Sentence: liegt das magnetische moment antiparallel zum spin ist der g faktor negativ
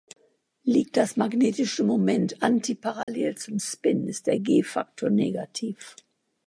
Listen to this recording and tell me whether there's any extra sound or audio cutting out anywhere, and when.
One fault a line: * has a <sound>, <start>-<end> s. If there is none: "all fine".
* has a dropout, 3.0-3.1 s